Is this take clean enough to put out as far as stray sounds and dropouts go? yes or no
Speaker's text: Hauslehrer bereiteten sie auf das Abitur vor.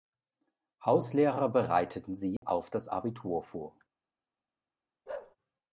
no